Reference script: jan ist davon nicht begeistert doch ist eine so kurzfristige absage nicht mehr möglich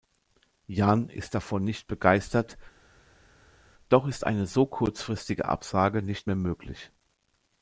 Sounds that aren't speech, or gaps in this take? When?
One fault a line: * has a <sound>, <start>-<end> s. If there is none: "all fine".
all fine